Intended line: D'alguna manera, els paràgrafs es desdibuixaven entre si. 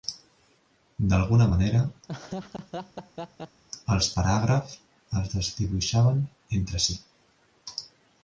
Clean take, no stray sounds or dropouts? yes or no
no